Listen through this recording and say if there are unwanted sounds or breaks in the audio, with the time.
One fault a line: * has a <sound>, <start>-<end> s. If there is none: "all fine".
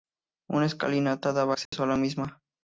* has a dropout, 1.7-1.7 s